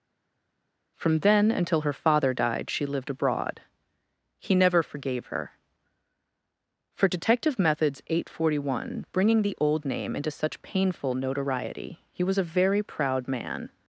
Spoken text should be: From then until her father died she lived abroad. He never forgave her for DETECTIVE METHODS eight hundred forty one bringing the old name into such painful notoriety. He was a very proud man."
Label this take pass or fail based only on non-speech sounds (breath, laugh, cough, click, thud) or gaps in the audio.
pass